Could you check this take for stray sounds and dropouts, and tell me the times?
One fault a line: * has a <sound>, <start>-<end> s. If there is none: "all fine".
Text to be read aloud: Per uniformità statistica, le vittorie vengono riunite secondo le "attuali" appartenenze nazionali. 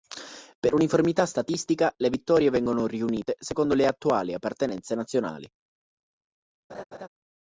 * has a laugh, 6.7-7.1 s